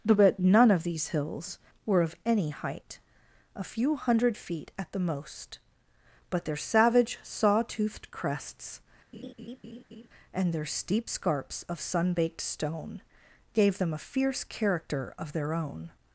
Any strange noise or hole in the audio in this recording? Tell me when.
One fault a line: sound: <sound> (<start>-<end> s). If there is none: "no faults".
sound: laugh (9.1-10.1 s)